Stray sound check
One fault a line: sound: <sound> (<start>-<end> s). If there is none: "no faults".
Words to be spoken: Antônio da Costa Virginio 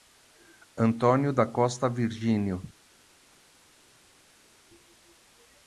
no faults